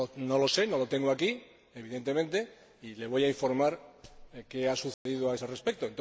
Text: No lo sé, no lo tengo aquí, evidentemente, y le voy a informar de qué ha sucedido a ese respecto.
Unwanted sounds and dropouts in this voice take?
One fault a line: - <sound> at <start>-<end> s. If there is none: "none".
- dropout at 4.9-5.1 s